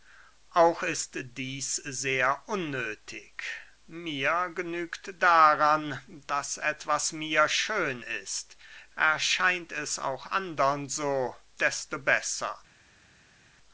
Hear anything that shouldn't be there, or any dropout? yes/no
no